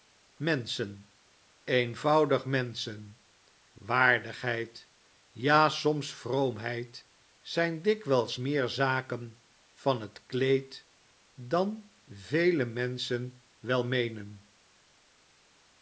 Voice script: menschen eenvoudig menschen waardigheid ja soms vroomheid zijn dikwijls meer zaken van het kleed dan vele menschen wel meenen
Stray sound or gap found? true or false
false